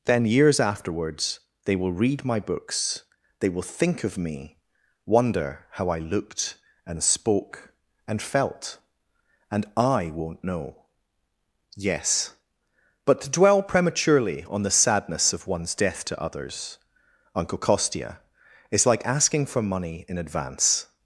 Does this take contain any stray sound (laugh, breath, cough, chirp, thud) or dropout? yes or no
no